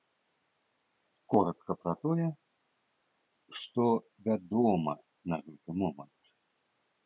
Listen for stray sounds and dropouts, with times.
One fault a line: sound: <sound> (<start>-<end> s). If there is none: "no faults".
no faults